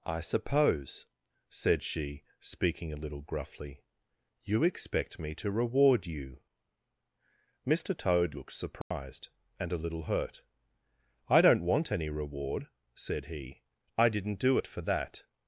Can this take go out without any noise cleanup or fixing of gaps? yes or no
no